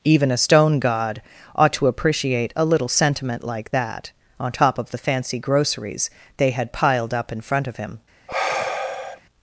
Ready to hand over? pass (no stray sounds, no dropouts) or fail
fail